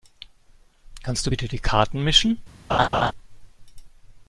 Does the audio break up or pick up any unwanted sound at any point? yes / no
yes